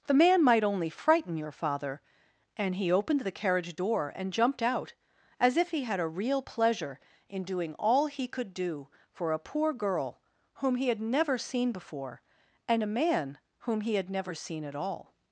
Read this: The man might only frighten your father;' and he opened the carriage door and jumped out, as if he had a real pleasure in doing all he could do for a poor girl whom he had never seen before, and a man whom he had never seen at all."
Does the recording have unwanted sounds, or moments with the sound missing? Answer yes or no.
no